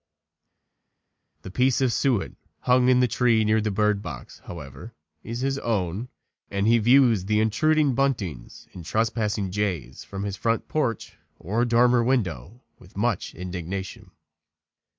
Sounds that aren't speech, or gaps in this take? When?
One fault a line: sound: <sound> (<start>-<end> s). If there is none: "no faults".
no faults